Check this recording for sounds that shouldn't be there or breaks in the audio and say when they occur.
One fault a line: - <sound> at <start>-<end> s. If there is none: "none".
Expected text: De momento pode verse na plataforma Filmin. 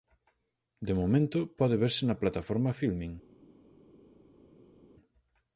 none